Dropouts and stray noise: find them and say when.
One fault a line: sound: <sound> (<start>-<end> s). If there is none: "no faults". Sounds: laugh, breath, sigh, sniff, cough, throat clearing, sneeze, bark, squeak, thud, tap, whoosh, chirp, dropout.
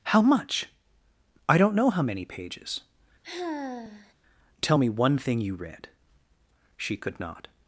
sound: sigh (3.2-4.1 s)